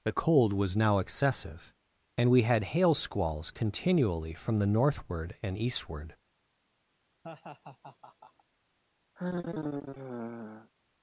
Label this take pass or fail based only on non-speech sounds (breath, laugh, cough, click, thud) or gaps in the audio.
fail